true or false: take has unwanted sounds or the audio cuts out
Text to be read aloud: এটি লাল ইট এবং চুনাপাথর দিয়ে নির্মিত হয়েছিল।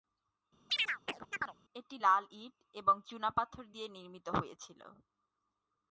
true